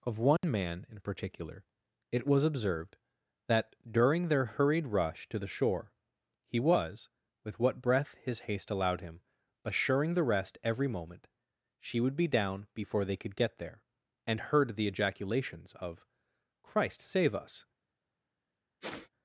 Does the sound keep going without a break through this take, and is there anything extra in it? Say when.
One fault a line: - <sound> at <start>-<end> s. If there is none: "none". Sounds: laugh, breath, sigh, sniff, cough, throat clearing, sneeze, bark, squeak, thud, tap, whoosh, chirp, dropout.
- dropout at 0.4-0.4 s
- sniff at 18.8-19.1 s